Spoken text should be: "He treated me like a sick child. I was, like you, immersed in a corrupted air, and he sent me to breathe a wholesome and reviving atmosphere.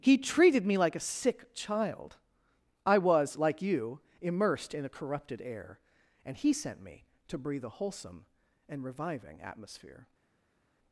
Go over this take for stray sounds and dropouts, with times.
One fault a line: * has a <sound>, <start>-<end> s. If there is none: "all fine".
all fine